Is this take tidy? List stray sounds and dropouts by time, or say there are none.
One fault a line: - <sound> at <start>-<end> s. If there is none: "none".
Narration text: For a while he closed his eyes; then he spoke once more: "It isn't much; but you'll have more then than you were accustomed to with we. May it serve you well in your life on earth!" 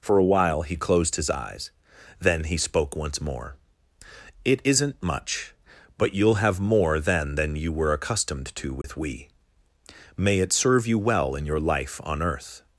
- dropout at 8.8-8.8 s